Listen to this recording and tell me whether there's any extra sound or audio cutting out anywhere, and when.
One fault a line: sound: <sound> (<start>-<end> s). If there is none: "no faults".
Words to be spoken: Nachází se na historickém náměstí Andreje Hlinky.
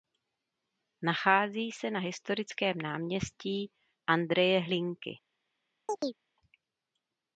sound: chirp (5.9-6.2 s)